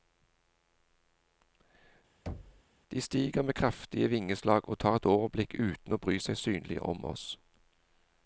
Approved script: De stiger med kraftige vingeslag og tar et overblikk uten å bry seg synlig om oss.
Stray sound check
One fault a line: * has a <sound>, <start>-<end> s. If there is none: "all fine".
* has a thud, 2.3-2.6 s